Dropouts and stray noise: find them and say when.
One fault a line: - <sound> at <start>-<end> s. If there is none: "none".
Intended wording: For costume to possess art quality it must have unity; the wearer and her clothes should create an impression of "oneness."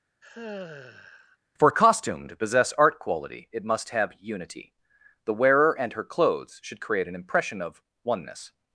- sigh at 0.2-1.4 s